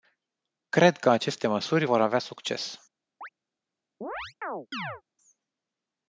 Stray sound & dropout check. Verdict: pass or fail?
fail